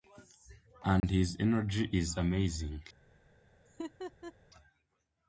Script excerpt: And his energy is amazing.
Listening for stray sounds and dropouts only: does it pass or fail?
fail